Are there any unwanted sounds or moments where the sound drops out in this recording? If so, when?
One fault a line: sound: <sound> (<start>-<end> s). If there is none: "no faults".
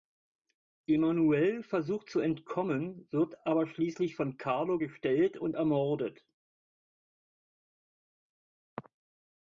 no faults